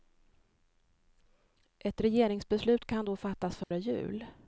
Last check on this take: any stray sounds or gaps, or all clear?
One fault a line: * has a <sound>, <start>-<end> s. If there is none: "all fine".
* has a dropout, 3.6-3.7 s